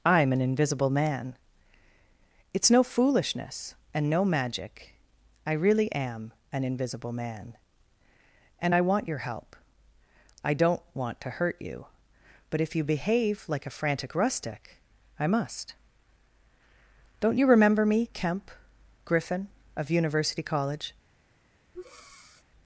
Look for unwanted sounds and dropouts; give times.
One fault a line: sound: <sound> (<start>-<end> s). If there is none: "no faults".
sound: breath (21.7-22.4 s)